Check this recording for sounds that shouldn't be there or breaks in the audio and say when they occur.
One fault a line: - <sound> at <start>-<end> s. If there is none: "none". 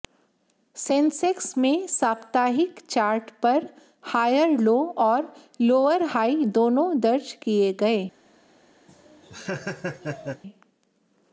- laugh at 8.9-10.4 s